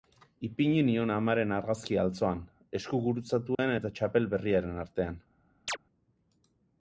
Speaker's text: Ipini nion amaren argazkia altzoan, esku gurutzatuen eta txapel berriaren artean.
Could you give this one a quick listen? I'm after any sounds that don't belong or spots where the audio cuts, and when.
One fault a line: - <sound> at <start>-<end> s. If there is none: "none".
- dropout at 3.5-3.6 s
- chirp at 5.7-5.8 s